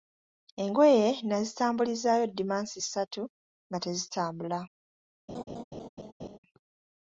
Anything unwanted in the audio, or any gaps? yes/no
yes